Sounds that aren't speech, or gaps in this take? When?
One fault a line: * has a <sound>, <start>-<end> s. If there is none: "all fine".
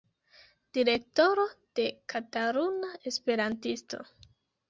all fine